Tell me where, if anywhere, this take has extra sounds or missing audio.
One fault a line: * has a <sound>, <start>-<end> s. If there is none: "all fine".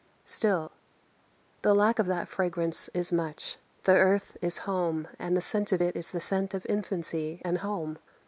all fine